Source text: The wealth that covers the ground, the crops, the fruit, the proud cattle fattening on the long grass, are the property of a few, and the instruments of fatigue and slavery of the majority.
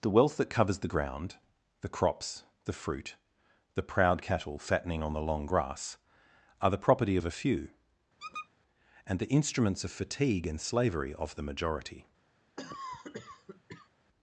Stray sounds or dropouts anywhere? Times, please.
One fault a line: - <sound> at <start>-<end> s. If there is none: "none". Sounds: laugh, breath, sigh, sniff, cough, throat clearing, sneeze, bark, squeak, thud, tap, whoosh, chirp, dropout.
- squeak at 8.2-8.5 s
- cough at 12.6-13.9 s